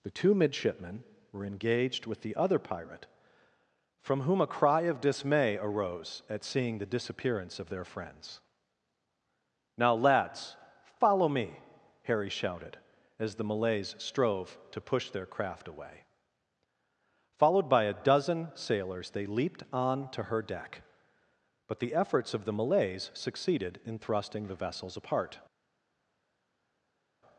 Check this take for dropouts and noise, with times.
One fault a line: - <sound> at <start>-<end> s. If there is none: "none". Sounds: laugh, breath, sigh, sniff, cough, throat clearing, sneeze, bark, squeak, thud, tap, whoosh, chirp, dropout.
none